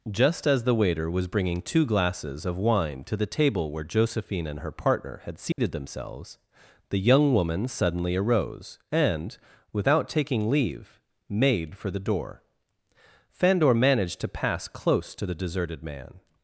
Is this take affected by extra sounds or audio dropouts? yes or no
yes